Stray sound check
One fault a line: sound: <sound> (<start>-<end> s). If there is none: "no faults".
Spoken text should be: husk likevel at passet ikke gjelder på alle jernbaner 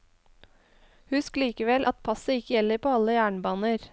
no faults